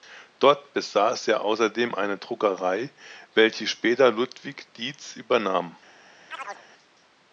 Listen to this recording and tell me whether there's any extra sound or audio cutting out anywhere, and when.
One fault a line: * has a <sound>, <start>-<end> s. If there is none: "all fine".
* has a chirp, 6.3-6.7 s